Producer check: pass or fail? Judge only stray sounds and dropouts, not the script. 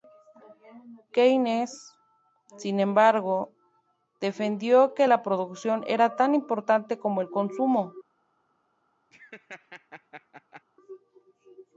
fail